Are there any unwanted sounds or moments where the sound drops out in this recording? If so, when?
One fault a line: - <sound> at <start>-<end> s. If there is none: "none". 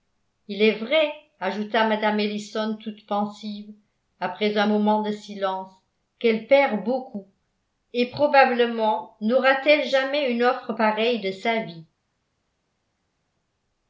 none